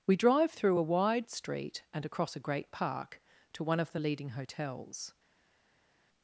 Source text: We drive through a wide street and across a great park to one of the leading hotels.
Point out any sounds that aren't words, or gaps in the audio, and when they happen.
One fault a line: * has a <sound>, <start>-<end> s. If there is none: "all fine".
all fine